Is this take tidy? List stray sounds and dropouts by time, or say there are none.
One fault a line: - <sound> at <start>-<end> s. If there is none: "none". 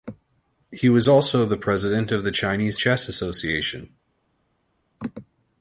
none